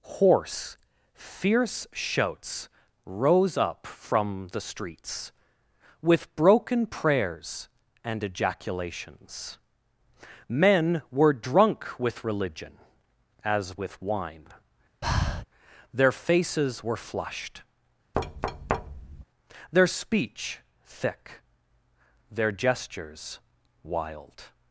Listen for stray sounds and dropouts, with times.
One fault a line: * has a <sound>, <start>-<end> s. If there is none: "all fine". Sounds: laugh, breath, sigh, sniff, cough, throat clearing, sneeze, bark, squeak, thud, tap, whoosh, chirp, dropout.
* has a breath, 15.0-15.5 s
* has a thud, 18.1-19.2 s